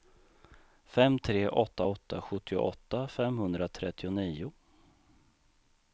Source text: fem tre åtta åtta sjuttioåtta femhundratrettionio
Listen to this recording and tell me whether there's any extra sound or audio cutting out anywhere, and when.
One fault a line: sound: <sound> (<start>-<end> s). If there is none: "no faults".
no faults